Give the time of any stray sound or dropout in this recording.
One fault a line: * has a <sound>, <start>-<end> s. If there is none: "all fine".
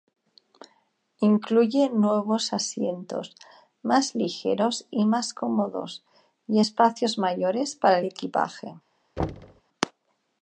* has a thud, 9.2-9.6 s